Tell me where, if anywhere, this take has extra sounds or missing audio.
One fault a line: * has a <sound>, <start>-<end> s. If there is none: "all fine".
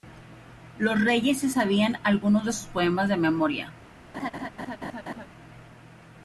* has a laugh, 4.1-5.3 s